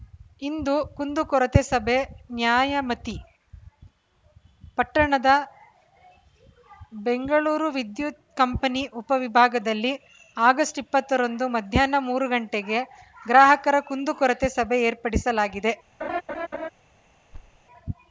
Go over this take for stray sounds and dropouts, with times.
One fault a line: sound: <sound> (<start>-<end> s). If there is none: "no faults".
sound: laugh (16.0-16.7 s)
sound: thud (17.3-17.6 s)